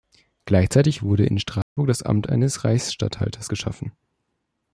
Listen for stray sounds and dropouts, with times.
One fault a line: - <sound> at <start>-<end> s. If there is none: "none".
- dropout at 1.6-1.8 s